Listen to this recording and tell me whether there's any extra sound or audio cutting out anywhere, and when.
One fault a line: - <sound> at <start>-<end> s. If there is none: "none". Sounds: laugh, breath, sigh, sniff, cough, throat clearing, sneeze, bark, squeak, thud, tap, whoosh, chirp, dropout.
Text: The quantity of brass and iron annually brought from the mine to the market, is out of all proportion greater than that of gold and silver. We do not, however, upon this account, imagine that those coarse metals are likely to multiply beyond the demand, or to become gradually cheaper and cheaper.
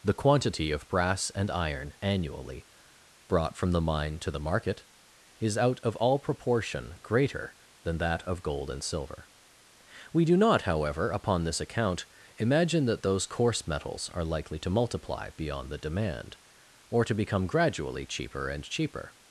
none